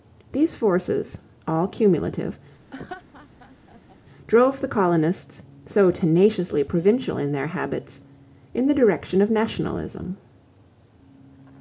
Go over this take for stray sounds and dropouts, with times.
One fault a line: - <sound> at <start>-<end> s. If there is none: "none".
- laugh at 2.7-4.0 s